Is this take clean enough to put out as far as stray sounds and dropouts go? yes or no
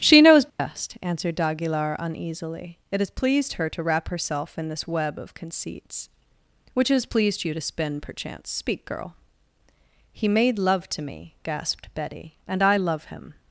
no